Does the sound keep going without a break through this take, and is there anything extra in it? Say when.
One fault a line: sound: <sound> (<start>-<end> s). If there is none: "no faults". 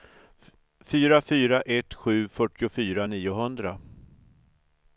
no faults